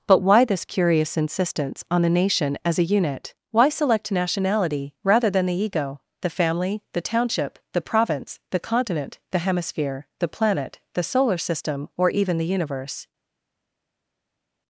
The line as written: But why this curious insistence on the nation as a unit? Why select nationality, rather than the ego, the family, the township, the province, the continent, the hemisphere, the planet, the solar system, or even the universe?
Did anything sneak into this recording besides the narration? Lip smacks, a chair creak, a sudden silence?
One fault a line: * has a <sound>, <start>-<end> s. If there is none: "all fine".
all fine